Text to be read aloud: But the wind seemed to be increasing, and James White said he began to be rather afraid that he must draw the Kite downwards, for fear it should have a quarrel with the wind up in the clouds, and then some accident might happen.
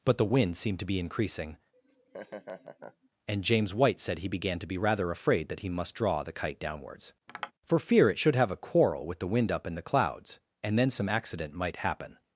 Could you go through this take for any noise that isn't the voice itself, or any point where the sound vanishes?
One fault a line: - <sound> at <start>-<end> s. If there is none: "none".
- laugh at 1.7-3.1 s
- tap at 7.3-7.5 s